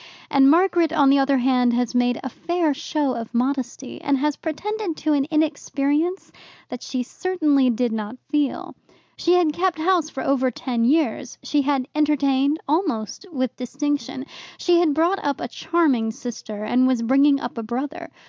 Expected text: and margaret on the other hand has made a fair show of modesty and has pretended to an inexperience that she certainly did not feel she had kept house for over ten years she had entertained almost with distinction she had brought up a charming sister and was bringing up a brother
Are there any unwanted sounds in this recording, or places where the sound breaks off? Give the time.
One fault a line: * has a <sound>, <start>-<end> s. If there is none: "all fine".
all fine